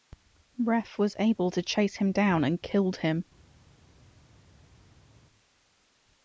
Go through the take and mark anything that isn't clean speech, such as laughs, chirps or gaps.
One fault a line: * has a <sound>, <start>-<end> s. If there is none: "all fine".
all fine